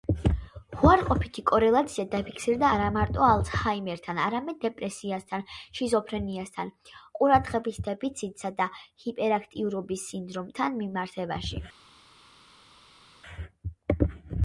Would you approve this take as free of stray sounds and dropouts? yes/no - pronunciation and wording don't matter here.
yes